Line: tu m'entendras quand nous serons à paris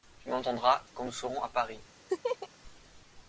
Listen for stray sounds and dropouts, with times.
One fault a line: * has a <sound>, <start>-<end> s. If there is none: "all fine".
* has a laugh, 2.1-2.5 s